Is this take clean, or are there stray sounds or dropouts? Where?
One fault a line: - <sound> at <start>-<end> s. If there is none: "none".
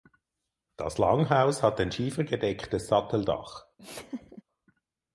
- laugh at 3.8-4.4 s